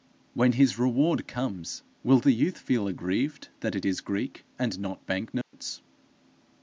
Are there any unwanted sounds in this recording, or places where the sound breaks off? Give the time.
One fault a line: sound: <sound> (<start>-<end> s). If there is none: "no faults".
sound: dropout (5.4-5.5 s)